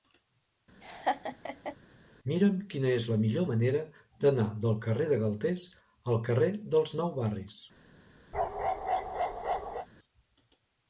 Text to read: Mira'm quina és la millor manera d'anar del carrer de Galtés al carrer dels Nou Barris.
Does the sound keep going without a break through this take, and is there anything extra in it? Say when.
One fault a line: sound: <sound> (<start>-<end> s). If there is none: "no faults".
sound: laugh (0.8-1.8 s)
sound: bark (8.3-9.9 s)